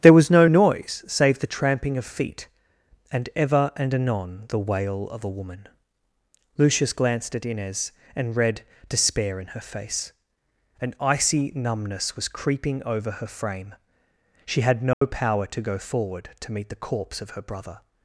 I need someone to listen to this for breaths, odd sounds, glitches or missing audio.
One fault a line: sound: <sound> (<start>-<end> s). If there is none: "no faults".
sound: dropout (14.9-15.0 s)